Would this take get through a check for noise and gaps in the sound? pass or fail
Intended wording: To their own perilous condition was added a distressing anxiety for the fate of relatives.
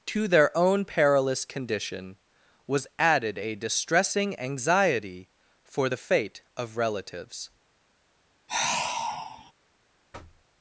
fail